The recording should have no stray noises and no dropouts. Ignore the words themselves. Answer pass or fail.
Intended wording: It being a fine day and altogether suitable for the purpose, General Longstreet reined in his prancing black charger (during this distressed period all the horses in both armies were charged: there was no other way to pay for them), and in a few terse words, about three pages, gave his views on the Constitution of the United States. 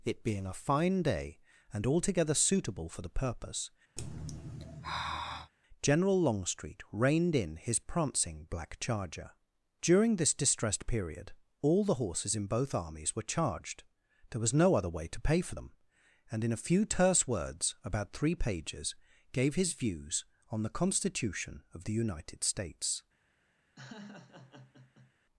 fail